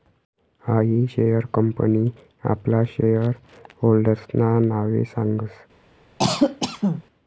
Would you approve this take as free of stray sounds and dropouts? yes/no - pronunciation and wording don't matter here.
no